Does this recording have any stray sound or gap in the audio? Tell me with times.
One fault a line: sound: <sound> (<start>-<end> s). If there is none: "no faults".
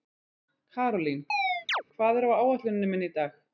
sound: chirp (1.3-1.8 s)